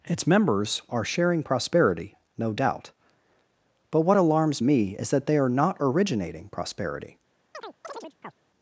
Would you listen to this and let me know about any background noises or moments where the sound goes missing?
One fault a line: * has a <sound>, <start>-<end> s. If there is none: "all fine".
* has a chirp, 7.5-8.3 s